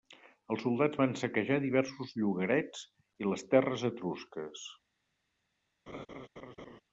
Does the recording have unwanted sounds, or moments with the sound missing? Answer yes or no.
yes